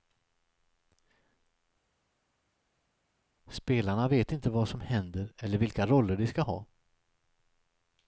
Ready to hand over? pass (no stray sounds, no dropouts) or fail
pass